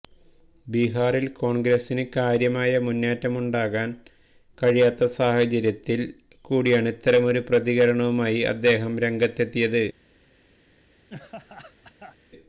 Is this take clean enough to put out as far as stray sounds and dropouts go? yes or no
no